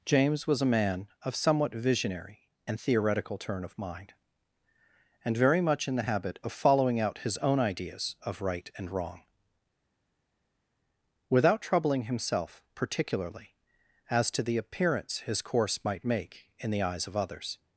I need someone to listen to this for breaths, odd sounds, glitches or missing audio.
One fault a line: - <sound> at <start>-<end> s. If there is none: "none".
none